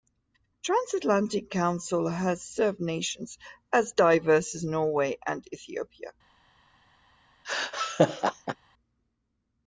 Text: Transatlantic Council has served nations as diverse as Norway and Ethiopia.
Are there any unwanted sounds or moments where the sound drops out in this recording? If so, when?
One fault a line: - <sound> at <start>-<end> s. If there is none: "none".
- laugh at 7.4-8.6 s